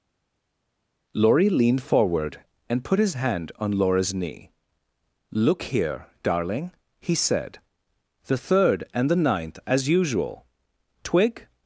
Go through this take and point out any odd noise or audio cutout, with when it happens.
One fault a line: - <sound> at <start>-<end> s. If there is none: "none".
none